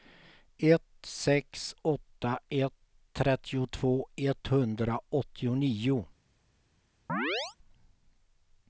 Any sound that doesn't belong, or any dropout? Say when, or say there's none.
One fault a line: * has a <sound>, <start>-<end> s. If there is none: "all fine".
* has a chirp, 7.1-7.6 s